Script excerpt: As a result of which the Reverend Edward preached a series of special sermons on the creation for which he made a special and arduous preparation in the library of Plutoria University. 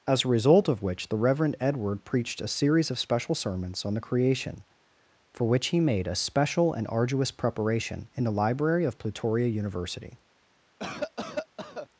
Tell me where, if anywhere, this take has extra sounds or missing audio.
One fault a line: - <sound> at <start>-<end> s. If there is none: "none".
- cough at 10.8-11.9 s